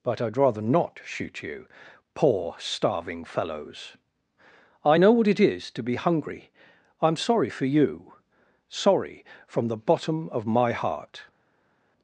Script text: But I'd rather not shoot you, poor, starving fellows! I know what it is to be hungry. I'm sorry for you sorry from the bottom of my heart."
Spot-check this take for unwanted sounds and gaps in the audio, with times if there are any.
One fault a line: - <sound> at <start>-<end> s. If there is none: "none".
none